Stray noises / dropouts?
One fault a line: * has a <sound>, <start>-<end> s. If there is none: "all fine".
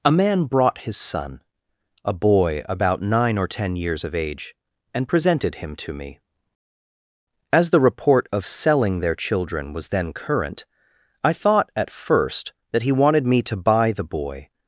all fine